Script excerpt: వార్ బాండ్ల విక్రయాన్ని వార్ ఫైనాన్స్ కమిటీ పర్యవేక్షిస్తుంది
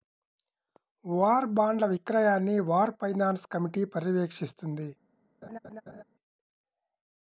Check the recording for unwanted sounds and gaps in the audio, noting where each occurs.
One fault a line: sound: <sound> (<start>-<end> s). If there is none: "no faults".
sound: laugh (5.4-6.0 s)